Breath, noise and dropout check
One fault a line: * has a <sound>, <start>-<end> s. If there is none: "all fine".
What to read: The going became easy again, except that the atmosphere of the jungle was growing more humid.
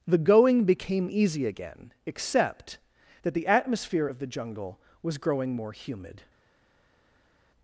all fine